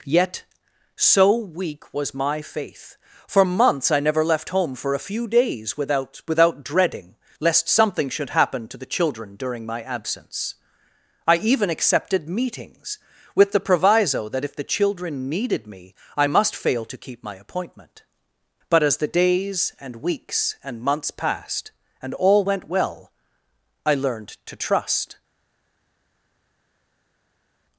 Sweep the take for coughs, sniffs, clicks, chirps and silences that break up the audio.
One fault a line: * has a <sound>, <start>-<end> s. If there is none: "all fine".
all fine